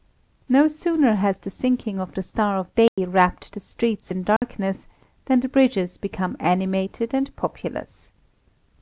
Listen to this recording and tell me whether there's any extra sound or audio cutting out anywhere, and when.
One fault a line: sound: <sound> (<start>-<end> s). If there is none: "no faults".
sound: dropout (2.9-3.0 s)
sound: dropout (4.4-4.4 s)